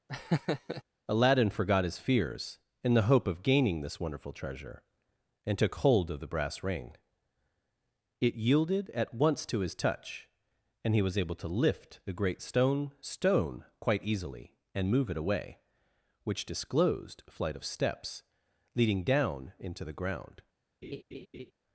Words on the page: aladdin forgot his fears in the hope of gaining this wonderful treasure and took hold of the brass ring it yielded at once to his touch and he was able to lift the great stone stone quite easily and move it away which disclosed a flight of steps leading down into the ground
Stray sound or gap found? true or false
true